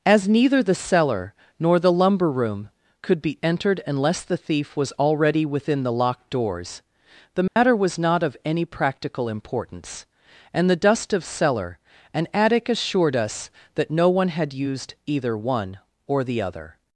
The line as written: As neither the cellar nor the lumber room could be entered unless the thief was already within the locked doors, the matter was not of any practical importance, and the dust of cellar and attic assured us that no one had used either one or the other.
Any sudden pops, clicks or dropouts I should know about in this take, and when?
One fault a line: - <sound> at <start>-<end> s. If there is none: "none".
- dropout at 7.5-7.6 s